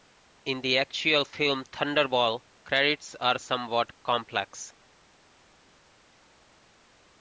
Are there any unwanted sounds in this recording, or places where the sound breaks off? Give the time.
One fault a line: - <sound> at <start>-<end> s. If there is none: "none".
none